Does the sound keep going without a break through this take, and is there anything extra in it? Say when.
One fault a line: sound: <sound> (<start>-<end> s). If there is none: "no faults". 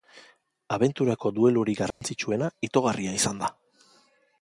sound: dropout (1.9-2.0 s)